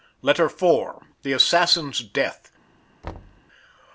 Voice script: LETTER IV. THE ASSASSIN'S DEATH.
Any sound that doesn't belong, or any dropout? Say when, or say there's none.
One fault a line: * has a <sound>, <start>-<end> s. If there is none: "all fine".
* has a thud, 3.0-3.4 s